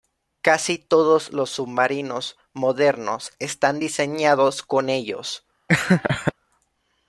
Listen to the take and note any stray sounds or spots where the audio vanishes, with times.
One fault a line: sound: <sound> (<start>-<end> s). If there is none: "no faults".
sound: laugh (5.7-6.3 s)